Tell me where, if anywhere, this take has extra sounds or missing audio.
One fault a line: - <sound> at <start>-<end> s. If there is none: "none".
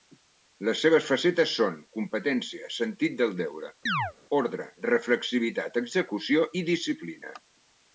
- chirp at 3.9-4.1 s